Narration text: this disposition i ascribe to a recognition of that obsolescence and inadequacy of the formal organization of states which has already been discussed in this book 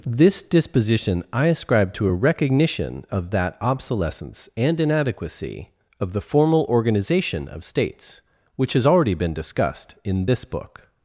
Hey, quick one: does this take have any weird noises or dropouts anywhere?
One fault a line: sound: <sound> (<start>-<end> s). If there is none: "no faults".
no faults